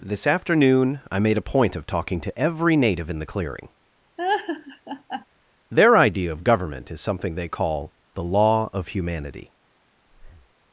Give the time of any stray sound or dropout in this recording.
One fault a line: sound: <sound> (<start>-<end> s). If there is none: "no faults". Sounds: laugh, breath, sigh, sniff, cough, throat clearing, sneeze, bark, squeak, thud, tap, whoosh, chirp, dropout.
sound: laugh (4.2-5.3 s)
sound: breath (10.1-10.5 s)